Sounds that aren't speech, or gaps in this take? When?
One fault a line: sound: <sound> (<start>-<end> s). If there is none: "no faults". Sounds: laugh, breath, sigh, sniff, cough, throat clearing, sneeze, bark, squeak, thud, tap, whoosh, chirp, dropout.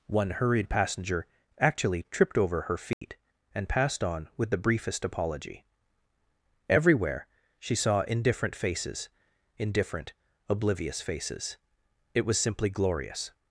sound: dropout (2.9-3.0 s)